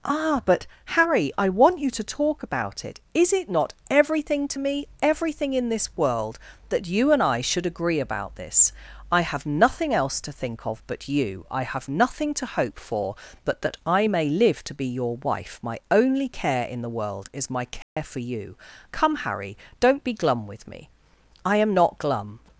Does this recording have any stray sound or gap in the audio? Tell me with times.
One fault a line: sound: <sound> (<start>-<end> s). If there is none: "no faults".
sound: dropout (17.8-18.0 s)